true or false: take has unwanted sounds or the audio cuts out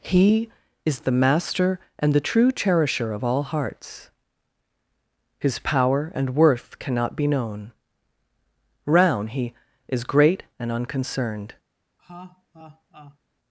true